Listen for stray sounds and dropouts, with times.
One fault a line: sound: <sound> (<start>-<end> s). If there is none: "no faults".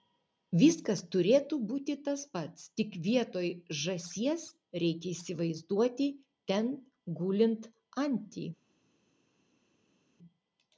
no faults